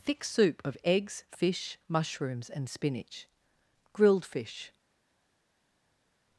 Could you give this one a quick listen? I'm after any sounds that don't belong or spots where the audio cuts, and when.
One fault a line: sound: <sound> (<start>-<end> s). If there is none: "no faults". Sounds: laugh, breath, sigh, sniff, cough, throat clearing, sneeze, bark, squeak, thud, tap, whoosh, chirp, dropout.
no faults